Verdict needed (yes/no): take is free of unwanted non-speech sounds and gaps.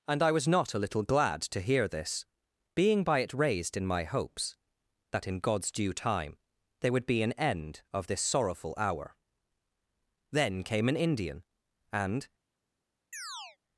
no